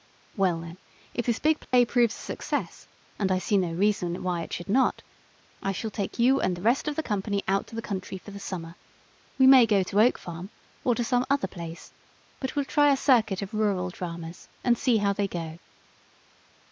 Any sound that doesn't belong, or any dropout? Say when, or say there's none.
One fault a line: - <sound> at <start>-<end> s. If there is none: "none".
- dropout at 1.6-1.7 s